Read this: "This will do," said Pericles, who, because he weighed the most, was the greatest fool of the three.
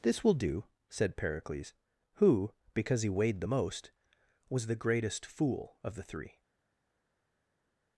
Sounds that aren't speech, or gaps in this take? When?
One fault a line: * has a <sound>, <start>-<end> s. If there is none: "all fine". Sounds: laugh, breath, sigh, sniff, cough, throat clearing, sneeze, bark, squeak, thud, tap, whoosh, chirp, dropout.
all fine